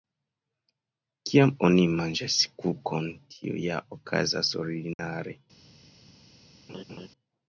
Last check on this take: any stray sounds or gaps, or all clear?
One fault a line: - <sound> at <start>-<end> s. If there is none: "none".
- dropout at 4.9-5.0 s
- laugh at 6.7-7.1 s